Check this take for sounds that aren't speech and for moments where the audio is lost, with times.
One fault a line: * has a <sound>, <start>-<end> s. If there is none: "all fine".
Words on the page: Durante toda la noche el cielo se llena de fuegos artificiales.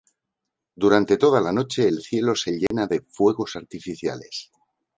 * has a dropout, 2.7-2.7 s